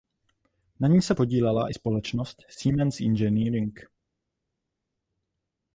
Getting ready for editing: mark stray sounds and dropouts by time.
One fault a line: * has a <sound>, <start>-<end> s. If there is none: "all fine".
all fine